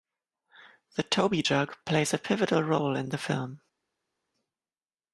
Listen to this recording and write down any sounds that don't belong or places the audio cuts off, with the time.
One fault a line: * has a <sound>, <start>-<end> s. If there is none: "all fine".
all fine